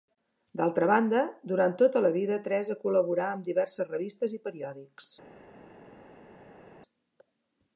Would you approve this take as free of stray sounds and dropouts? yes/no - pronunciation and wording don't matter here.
yes